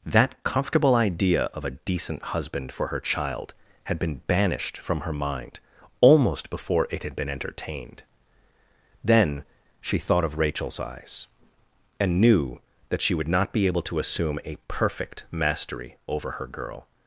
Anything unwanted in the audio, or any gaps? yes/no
no